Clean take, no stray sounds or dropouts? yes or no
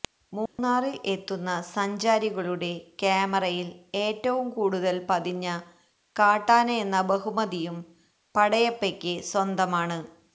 no